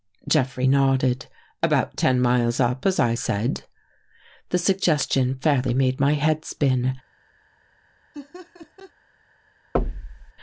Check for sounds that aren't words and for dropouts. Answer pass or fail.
fail